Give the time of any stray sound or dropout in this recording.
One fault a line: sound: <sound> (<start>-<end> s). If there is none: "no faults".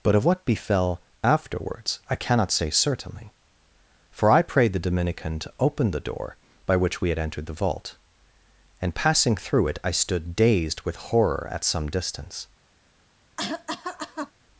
sound: cough (13.4-14.3 s)